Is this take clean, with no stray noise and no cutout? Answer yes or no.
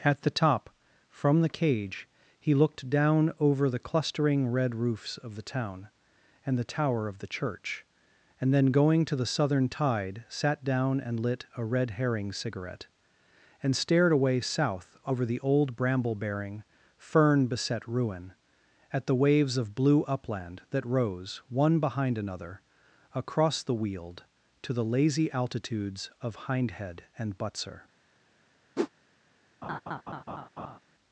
no